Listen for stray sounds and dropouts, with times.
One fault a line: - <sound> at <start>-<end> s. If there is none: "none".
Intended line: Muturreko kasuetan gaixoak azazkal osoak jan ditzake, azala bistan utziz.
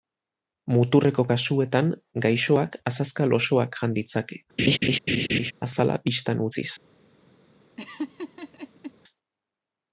- laugh at 4.6-5.5 s
- laugh at 7.8-8.9 s